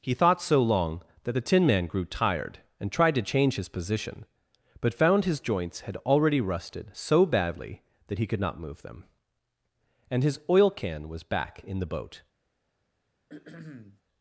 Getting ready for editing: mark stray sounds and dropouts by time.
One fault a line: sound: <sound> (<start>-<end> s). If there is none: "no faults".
sound: throat clearing (13.3-14.0 s)